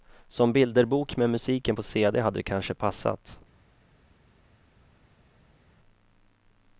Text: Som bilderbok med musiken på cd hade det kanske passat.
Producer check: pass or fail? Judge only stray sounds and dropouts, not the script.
pass